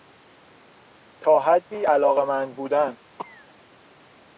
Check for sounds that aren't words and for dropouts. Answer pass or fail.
fail